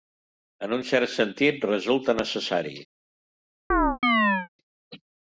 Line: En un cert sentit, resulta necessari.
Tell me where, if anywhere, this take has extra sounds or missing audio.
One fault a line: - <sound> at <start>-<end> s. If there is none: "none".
- chirp at 3.7-4.5 s